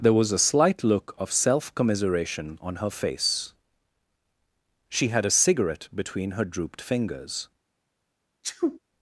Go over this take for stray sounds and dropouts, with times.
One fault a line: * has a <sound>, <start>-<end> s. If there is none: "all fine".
* has a sneeze, 8.4-8.8 s